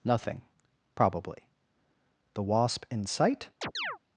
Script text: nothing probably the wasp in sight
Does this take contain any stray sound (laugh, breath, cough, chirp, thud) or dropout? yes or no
yes